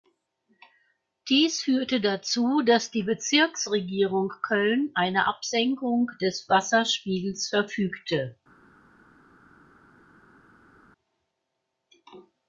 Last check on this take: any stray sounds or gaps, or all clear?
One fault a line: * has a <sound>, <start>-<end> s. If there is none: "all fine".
all fine